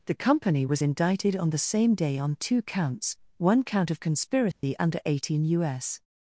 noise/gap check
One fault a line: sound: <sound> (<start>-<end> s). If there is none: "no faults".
sound: dropout (4.5-4.6 s)